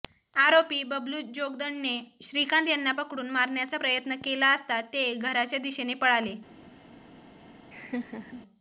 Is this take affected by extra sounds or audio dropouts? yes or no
yes